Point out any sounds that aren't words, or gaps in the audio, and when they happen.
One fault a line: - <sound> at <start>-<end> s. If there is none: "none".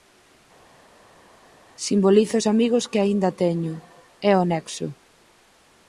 none